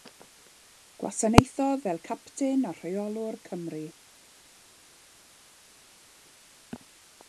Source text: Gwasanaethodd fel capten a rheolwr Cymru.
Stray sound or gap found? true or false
false